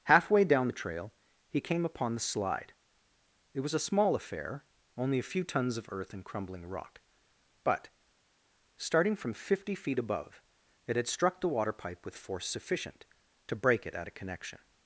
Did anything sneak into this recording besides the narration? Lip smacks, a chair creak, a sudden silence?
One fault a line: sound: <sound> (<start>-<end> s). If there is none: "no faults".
no faults